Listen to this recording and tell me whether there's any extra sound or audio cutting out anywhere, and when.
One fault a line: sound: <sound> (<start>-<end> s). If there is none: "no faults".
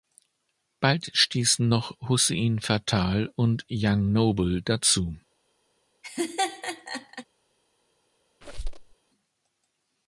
sound: laugh (6.0-7.3 s)
sound: squeak (8.4-8.9 s)